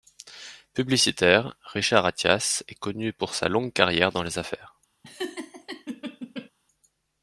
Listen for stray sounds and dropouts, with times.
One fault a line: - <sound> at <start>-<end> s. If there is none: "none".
- laugh at 5.0-6.5 s